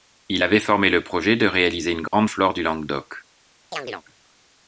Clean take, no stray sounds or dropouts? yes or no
no